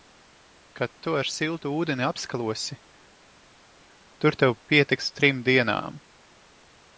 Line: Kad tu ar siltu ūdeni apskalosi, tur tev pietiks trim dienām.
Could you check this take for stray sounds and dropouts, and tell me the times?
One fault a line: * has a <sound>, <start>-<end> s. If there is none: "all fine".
all fine